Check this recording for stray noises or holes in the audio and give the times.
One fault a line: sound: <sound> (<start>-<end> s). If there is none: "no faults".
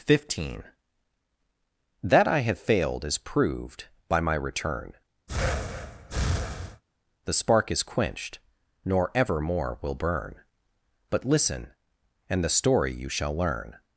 sound: breath (5.3-6.8 s)